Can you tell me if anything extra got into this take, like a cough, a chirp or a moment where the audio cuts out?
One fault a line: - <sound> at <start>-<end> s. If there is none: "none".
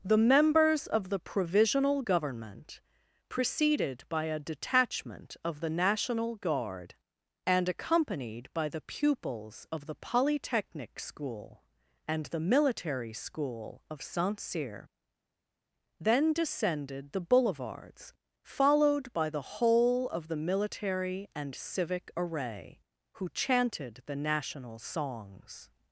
none